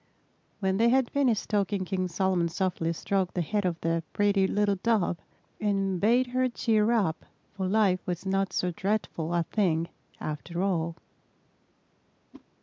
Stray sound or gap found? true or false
true